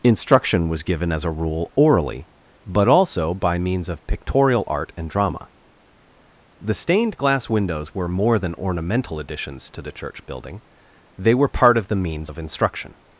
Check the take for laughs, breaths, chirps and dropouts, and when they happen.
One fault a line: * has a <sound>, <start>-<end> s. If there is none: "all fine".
all fine